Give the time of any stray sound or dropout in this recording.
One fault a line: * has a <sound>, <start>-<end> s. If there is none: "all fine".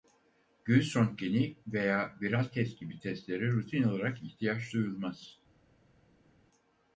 all fine